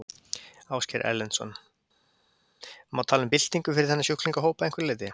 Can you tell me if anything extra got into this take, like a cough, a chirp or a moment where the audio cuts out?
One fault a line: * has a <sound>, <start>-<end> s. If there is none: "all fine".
all fine